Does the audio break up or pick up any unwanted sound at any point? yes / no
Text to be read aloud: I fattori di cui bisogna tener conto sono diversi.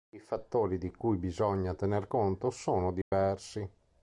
yes